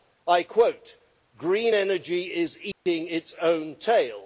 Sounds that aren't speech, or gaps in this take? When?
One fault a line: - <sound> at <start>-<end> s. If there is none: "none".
- dropout at 2.7-2.9 s